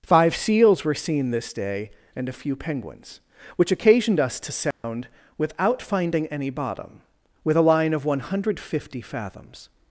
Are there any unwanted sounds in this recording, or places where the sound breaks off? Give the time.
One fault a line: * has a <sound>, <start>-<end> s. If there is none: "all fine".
* has a dropout, 4.7-4.8 s